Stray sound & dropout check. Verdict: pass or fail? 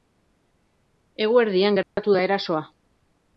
fail